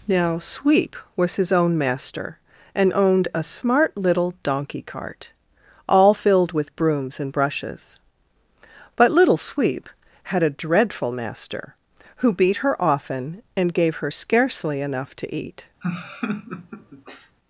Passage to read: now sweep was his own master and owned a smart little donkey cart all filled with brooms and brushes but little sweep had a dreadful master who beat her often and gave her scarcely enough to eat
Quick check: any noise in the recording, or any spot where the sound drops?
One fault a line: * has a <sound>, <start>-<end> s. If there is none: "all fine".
* has a laugh, 15.8-17.4 s